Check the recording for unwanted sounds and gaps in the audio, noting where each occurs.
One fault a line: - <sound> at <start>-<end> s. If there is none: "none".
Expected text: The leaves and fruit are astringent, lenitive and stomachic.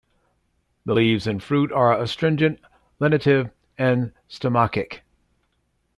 none